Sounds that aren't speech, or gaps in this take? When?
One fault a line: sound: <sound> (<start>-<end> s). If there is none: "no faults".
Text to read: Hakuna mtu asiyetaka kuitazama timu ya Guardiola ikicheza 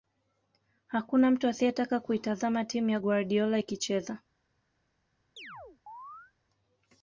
sound: chirp (5.4-6.3 s)